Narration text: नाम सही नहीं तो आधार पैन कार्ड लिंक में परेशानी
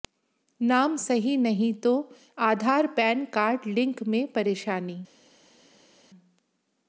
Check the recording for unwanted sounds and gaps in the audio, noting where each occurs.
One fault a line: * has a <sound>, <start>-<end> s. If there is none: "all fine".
all fine